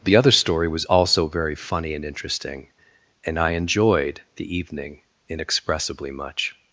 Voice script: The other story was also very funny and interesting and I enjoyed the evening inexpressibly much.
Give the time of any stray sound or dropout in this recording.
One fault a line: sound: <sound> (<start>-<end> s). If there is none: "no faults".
no faults